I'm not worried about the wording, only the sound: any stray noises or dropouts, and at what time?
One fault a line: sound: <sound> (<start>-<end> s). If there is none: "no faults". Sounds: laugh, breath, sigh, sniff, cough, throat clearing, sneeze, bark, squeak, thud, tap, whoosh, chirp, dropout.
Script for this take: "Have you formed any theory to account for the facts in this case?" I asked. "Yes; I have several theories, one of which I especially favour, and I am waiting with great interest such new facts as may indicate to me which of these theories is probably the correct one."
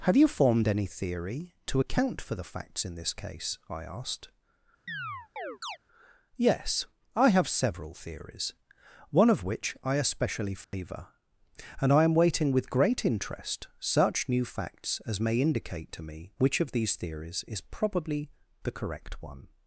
sound: chirp (4.9-5.8 s)
sound: dropout (10.6-10.7 s)